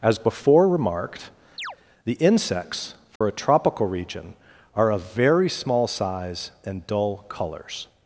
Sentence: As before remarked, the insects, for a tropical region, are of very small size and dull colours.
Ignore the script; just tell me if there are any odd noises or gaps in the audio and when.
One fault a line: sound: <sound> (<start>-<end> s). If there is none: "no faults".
sound: chirp (1.6-1.8 s)
sound: dropout (3.2-3.2 s)